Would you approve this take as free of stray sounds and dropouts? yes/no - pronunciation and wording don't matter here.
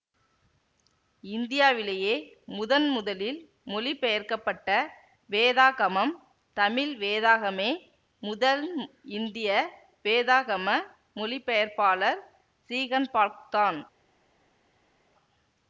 yes